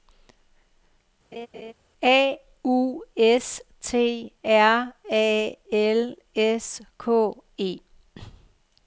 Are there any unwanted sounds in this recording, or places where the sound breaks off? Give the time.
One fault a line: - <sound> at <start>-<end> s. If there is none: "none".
- laugh at 1.3-1.7 s